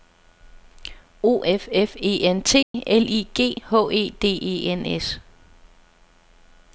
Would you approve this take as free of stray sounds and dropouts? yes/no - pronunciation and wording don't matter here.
no